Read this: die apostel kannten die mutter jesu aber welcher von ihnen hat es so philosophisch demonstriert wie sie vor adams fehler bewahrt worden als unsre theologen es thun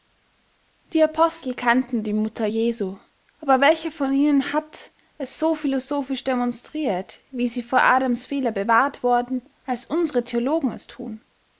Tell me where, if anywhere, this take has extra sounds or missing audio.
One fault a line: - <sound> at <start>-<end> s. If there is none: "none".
none